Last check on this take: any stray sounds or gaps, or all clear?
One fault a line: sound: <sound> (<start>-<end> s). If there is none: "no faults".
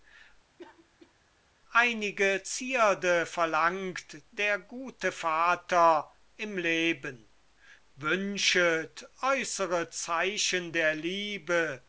sound: cough (0.6-1.1 s)